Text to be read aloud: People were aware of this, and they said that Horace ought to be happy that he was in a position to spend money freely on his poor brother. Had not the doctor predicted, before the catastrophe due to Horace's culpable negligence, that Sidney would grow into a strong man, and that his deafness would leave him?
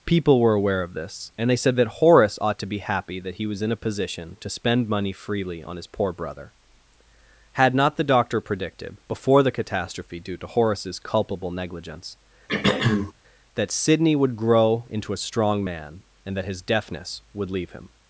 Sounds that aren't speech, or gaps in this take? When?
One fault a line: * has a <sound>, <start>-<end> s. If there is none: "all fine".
* has a throat clearing, 12.5-13.1 s